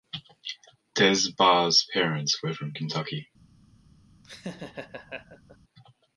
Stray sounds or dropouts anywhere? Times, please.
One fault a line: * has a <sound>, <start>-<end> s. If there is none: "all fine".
* has a laugh, 4.2-5.6 s